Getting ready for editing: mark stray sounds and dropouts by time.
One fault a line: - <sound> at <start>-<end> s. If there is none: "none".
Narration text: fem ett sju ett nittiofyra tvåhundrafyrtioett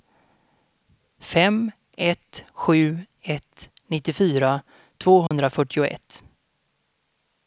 - dropout at 5.3-5.3 s